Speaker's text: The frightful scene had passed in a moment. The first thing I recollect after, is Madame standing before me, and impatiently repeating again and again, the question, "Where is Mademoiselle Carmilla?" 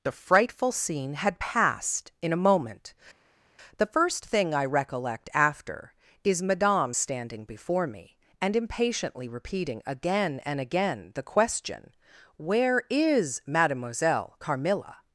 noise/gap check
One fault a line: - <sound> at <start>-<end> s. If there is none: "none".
none